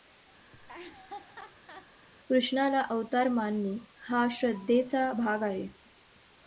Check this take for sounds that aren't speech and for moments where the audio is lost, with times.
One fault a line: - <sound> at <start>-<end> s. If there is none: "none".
- laugh at 0.5-1.9 s